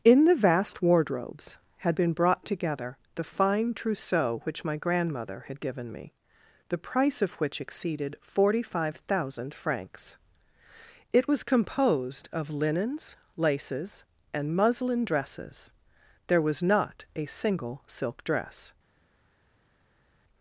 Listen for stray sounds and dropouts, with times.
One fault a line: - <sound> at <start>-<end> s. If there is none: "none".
none